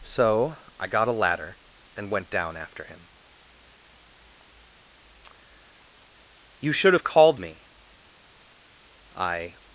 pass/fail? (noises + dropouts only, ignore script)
pass